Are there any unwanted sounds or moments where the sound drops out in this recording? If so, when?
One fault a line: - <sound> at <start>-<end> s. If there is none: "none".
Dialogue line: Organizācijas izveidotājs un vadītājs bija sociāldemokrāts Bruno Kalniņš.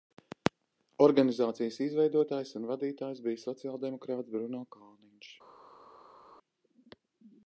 none